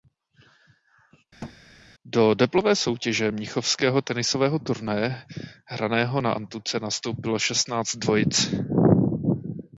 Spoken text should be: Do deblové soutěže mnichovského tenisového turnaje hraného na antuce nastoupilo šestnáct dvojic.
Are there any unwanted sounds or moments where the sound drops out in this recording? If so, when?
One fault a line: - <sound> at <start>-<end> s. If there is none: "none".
- thud at 1.4-1.6 s